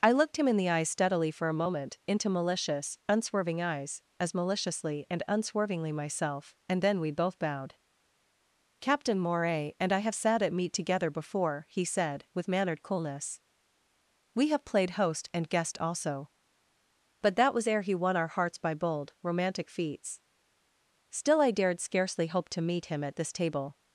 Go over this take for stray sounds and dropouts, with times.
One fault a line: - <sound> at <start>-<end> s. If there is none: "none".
none